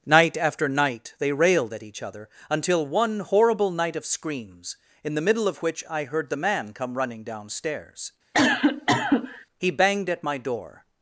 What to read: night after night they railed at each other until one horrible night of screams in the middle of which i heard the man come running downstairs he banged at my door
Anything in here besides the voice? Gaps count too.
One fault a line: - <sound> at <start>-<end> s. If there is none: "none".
- cough at 8.3-9.5 s